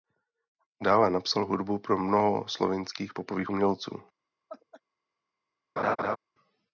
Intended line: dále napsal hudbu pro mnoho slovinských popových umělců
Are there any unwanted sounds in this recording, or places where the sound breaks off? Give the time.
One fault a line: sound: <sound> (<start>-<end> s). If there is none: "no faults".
sound: laugh (4.5-4.8 s)
sound: laugh (5.8-6.2 s)